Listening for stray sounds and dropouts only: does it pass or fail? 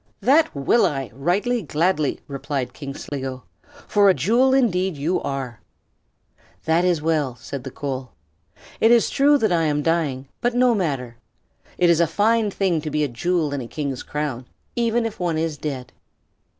fail